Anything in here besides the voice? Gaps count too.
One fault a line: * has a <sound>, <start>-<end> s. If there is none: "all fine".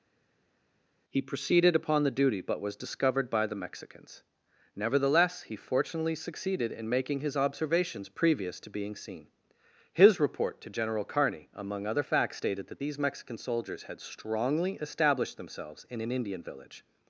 all fine